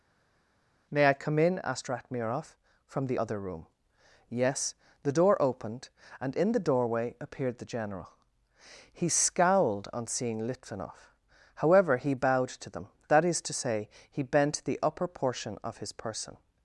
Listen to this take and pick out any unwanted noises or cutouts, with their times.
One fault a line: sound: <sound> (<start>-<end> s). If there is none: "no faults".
no faults